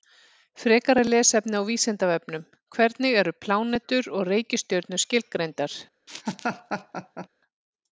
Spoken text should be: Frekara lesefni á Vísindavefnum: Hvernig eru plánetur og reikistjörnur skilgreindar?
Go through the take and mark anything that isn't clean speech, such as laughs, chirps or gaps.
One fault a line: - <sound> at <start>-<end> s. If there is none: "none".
- laugh at 6.1-7.3 s